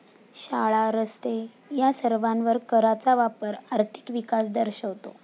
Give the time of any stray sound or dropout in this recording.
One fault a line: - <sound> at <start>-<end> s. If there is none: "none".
none